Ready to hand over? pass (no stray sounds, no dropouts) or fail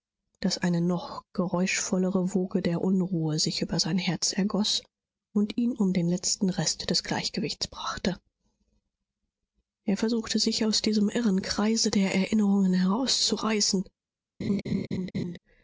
fail